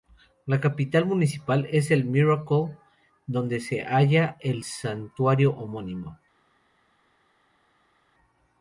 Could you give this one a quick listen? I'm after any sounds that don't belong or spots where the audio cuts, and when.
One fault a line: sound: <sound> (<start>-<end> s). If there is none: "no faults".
no faults